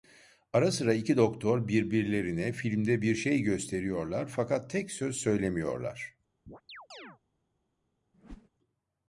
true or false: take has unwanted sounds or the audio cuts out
true